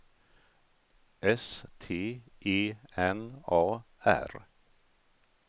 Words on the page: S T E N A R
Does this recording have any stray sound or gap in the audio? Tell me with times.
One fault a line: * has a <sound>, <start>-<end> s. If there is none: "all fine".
all fine